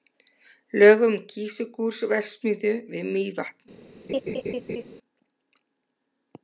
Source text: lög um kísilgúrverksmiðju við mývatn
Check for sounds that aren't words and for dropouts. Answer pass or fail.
fail